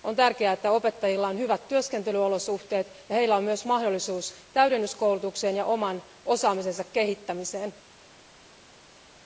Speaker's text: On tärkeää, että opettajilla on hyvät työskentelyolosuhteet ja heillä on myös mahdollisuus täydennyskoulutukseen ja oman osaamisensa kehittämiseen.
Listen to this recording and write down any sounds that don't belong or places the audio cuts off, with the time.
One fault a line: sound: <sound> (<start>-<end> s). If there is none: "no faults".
no faults